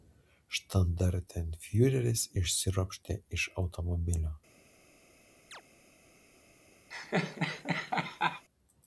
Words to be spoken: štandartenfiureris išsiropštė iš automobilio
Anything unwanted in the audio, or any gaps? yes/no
yes